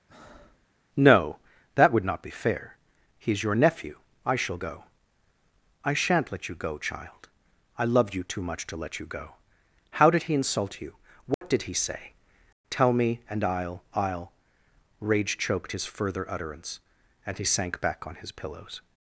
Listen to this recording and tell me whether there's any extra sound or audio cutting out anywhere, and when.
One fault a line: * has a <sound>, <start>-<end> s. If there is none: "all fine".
* has a breath, 0.1-0.7 s
* has a dropout, 11.3-11.4 s